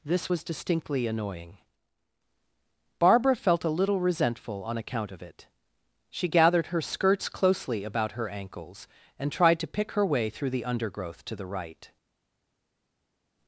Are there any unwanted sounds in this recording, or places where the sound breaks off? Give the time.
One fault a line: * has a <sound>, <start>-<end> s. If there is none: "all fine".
all fine